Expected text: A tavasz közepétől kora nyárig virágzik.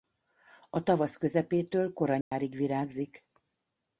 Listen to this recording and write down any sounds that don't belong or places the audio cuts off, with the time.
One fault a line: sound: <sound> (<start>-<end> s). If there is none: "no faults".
sound: dropout (2.2-2.3 s)